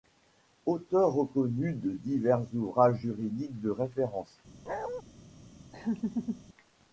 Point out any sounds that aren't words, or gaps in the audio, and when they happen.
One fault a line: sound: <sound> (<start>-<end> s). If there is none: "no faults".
sound: bark (4.7-5.0 s)
sound: laugh (5.7-6.4 s)